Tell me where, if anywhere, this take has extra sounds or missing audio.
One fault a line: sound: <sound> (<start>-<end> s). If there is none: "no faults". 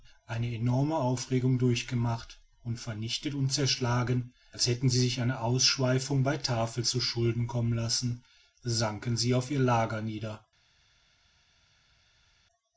no faults